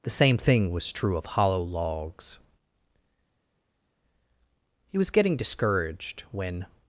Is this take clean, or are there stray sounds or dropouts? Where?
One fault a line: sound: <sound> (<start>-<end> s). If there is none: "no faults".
no faults